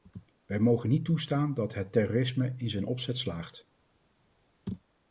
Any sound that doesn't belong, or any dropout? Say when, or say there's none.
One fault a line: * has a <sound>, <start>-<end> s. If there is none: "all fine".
all fine